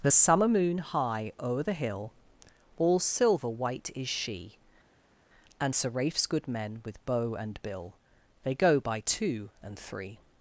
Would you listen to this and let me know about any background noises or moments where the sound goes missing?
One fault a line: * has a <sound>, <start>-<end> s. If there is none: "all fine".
all fine